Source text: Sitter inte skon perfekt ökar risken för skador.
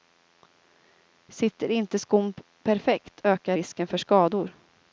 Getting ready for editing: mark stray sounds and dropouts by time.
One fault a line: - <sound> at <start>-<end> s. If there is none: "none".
none